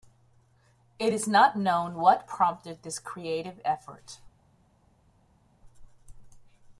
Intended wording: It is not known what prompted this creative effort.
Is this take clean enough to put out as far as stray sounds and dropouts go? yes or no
yes